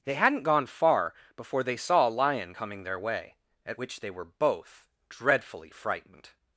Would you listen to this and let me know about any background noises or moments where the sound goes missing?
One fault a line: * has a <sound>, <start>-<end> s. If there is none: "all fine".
all fine